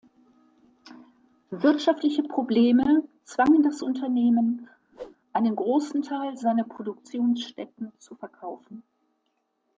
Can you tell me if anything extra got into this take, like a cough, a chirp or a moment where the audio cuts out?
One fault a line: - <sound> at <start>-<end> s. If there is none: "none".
- whoosh at 4.9-5.2 s